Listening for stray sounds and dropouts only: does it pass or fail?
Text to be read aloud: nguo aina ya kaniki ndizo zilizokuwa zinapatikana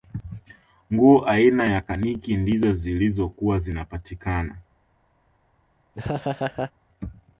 fail